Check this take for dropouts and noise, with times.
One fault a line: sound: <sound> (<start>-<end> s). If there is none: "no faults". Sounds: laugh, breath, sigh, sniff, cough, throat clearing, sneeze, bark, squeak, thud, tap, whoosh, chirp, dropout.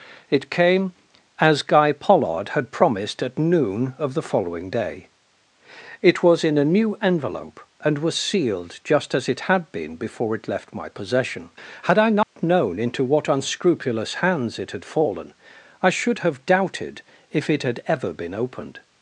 sound: dropout (12.2-12.4 s)